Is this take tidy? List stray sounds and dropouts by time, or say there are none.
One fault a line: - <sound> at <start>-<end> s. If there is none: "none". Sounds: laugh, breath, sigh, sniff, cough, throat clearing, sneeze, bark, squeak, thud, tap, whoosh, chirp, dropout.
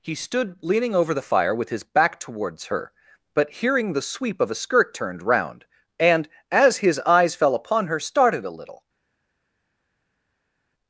none